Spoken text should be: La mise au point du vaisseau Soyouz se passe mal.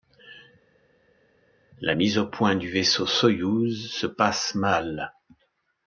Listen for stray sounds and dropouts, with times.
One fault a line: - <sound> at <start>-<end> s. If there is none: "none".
none